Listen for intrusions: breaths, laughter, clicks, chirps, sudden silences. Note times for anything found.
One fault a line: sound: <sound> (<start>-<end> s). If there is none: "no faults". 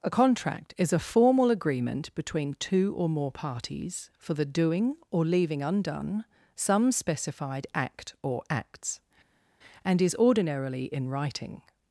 no faults